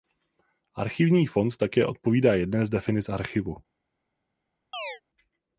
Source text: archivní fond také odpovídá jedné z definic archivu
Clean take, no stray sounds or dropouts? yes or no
no